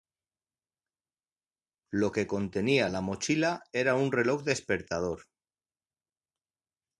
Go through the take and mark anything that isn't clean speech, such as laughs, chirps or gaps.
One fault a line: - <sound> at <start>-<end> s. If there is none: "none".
none